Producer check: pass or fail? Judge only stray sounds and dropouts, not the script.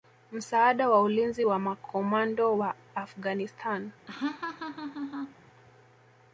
fail